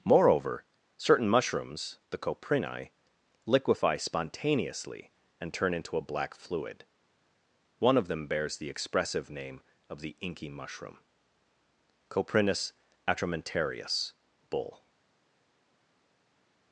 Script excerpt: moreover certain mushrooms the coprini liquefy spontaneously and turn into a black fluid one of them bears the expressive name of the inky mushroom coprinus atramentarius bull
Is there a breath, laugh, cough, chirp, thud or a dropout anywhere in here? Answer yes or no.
no